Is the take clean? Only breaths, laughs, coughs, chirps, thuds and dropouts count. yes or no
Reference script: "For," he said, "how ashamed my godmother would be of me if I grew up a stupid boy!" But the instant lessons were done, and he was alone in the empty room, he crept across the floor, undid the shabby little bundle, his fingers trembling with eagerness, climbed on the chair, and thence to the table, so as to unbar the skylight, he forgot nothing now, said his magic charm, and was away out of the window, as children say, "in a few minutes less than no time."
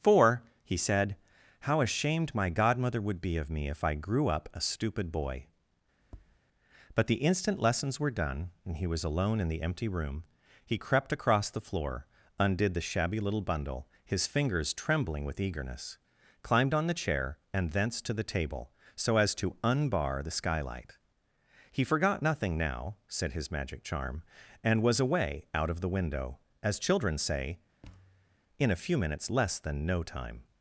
no